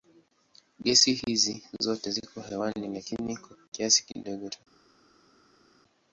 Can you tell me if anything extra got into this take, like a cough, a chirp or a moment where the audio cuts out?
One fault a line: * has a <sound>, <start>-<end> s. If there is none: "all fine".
all fine